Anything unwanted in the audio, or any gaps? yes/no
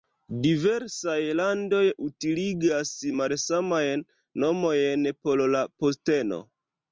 no